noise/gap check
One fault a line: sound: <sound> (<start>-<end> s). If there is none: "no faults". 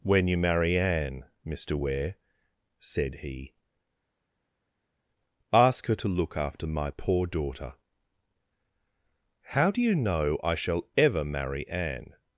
no faults